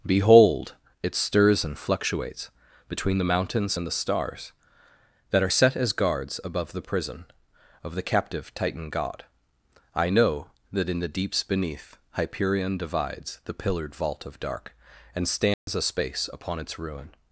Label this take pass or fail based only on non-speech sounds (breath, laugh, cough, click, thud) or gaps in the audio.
fail